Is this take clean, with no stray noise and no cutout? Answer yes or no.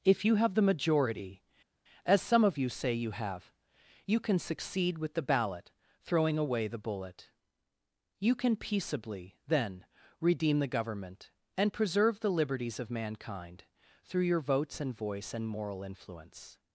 yes